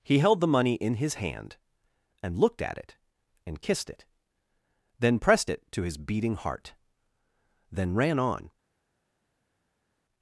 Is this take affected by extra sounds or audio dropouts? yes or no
no